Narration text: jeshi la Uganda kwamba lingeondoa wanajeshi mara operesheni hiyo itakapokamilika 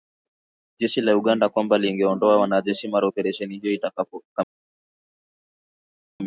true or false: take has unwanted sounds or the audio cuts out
false